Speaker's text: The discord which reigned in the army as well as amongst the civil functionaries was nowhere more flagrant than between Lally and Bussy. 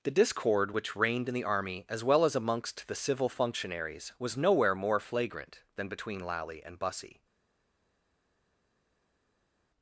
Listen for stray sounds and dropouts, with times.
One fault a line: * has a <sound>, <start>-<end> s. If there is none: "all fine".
all fine